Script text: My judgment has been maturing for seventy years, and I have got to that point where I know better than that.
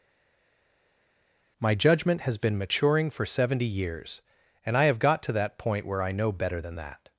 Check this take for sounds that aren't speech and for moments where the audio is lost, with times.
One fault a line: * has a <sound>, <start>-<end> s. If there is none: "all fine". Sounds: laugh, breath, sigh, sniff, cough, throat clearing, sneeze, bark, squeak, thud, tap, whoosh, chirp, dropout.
all fine